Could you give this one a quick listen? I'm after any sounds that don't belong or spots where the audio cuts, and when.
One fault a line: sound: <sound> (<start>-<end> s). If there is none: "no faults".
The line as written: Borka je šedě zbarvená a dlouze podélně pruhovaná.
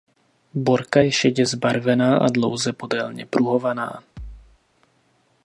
sound: thud (4.2-4.6 s)